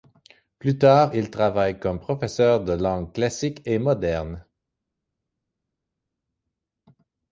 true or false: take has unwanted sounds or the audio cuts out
false